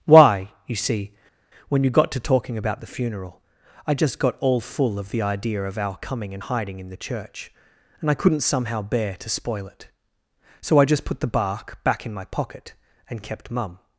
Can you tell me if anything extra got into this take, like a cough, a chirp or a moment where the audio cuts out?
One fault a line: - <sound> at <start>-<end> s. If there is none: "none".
none